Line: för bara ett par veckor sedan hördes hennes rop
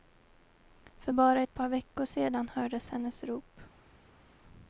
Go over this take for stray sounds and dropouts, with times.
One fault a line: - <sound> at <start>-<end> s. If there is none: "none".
none